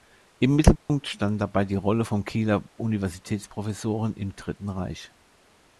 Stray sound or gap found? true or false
true